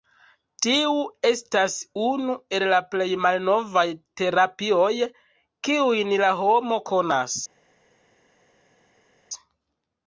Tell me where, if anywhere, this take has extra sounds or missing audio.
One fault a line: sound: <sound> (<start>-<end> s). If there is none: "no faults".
no faults